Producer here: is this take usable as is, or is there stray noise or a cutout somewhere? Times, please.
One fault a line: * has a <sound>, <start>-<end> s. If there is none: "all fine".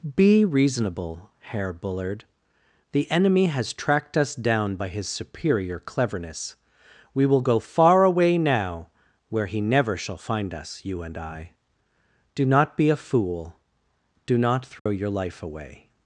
* has a dropout, 14.8-14.9 s